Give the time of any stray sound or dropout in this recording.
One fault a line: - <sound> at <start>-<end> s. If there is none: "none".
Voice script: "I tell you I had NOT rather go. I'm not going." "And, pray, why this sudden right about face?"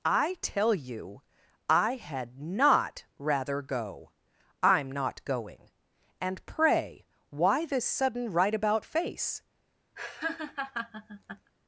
- laugh at 10.0-11.5 s